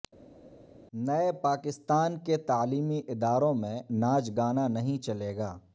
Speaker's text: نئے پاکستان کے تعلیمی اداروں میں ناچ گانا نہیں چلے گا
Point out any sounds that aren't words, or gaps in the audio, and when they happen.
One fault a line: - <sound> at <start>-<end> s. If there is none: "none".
none